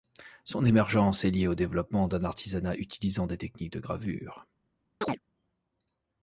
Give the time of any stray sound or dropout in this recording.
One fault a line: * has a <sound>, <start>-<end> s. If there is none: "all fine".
* has a chirp, 5.0-5.2 s